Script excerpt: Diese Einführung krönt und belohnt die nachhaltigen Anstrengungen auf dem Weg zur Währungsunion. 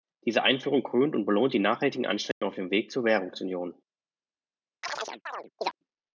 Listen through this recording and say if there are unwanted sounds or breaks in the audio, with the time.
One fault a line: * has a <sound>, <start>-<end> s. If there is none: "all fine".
* has a dropout, 2.3-2.4 s
* has a chirp, 4.8-5.8 s